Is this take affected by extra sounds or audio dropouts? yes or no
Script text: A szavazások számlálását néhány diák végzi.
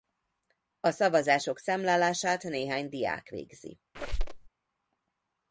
yes